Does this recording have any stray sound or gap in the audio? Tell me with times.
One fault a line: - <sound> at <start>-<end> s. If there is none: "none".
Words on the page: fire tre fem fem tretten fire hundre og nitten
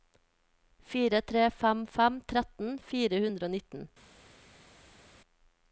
none